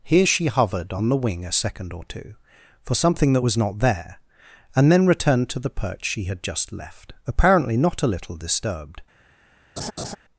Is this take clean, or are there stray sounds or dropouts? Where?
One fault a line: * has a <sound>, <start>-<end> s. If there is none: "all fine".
* has a laugh, 9.8-10.2 s